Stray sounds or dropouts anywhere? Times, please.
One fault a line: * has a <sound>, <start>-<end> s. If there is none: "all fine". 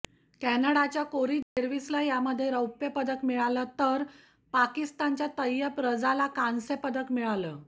* has a dropout, 1.4-1.6 s